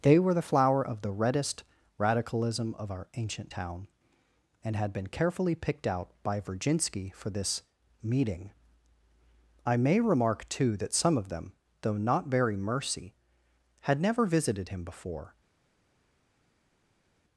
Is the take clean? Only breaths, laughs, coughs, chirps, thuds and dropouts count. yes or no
yes